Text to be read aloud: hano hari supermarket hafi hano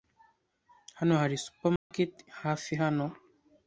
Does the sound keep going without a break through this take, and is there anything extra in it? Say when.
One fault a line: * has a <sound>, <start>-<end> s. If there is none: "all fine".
* has a dropout, 1.8-1.9 s